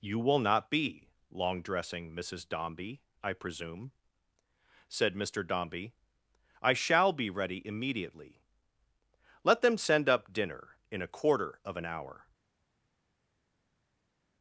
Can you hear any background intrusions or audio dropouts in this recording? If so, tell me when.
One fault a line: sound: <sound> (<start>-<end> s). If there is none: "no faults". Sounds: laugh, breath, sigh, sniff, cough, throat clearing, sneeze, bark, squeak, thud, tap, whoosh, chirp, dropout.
no faults